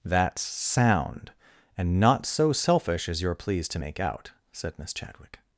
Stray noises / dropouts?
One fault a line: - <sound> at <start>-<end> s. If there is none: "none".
none